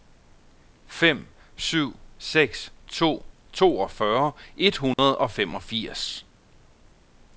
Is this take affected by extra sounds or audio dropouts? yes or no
yes